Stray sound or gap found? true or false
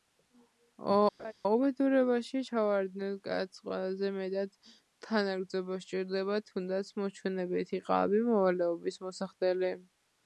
true